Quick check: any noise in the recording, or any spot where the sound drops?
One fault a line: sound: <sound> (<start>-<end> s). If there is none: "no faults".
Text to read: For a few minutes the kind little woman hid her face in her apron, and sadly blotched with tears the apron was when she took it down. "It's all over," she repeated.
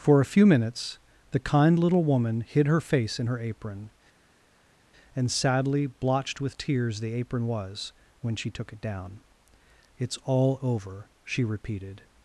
no faults